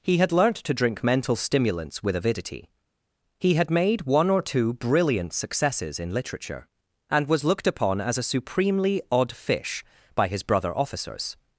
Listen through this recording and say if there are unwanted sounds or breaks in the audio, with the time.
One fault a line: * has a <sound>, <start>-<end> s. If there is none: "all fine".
all fine